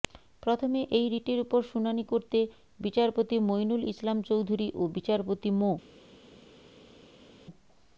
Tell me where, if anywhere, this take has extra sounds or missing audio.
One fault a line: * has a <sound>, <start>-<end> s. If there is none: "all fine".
all fine